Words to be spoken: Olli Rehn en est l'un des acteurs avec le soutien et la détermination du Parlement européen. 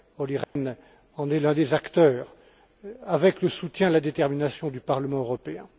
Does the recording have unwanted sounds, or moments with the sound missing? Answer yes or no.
yes